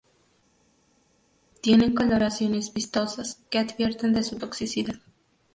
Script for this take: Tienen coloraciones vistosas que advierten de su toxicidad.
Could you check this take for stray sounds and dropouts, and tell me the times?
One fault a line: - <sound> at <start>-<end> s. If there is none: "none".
none